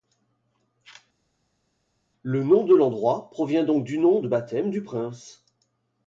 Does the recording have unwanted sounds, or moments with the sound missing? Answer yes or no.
no